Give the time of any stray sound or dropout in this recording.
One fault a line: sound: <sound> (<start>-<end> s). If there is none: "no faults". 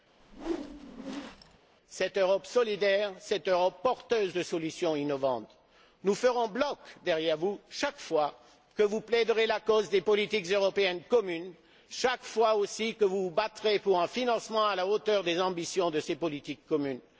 sound: whoosh (0.2-1.6 s)